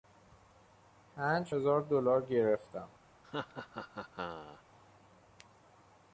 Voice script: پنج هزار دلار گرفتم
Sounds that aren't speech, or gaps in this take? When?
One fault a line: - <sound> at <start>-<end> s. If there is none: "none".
- laugh at 3.2-4.6 s